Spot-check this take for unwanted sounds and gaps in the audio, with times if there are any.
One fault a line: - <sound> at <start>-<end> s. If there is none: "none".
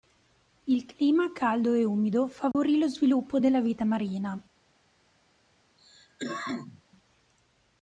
- dropout at 2.5-2.5 s
- cough at 5.8-6.8 s